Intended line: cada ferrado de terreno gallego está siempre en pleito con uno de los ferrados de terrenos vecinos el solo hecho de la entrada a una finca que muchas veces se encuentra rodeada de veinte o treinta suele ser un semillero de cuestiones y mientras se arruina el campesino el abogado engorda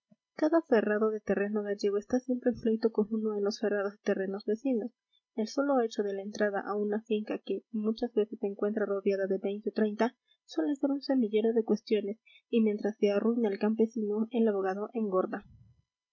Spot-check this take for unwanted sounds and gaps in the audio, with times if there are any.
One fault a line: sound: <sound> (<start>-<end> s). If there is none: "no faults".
no faults